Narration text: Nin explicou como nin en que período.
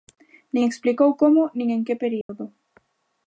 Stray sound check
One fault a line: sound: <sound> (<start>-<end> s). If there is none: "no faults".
sound: dropout (2.2-2.3 s)